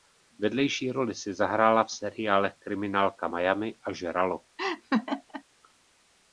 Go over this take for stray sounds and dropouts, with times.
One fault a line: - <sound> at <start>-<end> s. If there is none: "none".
- laugh at 4.6-5.4 s